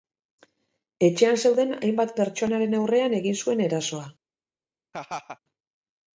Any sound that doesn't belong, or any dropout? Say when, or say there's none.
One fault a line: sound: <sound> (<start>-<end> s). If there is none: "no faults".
sound: laugh (4.9-5.4 s)